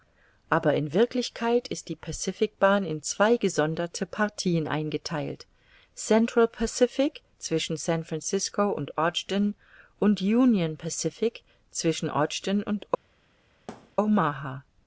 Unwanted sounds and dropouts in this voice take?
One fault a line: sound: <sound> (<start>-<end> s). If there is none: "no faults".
sound: thud (13.7-14.0 s)